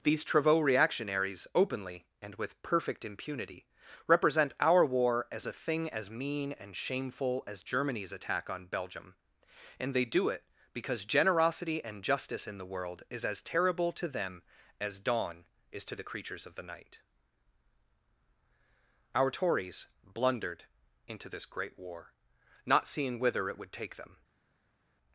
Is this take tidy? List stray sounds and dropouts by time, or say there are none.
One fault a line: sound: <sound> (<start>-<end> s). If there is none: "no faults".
no faults